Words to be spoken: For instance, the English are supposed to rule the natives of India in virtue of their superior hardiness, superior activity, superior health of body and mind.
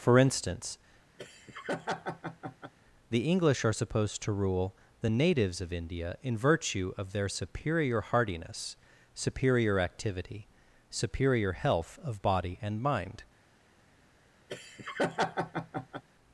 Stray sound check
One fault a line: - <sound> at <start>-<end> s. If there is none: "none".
- laugh at 1.2-2.7 s
- laugh at 14.5-16.0 s